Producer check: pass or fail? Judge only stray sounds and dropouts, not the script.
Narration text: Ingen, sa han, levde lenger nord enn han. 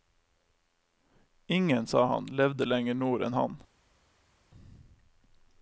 pass